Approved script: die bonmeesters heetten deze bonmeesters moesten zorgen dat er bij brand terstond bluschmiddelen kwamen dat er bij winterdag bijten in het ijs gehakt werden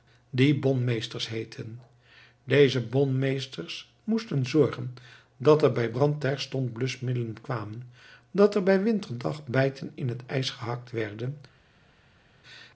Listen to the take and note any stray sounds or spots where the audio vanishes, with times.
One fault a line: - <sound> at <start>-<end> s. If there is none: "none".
none